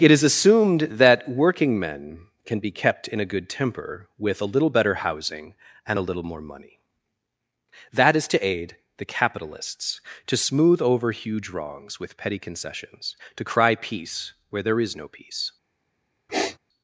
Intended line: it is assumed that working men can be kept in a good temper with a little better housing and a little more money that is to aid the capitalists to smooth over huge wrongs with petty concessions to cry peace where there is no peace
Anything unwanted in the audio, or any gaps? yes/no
yes